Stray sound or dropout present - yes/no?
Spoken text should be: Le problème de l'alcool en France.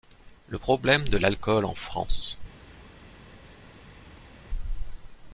no